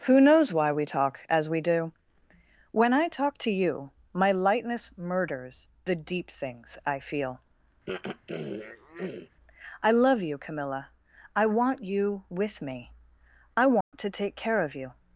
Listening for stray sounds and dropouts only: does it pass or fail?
fail